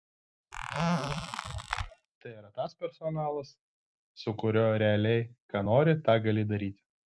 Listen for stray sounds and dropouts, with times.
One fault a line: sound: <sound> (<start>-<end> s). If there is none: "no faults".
sound: squeak (0.5-2.1 s)